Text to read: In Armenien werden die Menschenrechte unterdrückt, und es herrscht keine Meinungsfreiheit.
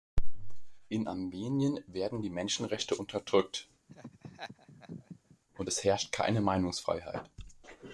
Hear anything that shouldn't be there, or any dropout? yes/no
yes